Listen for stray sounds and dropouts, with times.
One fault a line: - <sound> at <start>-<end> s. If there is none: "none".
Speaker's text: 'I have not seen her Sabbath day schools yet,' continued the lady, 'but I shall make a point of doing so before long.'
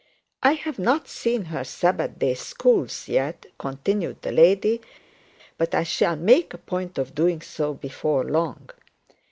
none